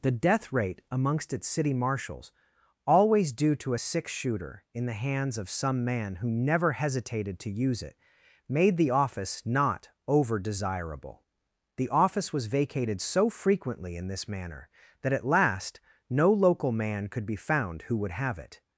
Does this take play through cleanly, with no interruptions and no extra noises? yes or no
yes